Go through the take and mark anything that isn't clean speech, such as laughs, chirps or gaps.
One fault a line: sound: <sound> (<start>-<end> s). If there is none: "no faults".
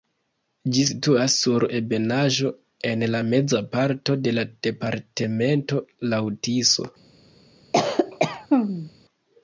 sound: cough (7.7-8.9 s)